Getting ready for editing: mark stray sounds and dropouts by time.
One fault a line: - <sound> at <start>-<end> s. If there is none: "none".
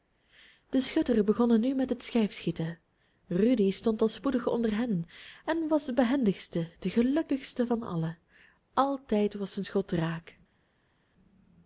none